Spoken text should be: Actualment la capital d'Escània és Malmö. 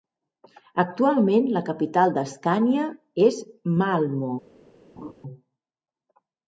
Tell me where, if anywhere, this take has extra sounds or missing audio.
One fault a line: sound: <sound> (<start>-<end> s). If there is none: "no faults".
sound: laugh (5.0-5.1 s)